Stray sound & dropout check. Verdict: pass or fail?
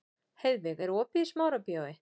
pass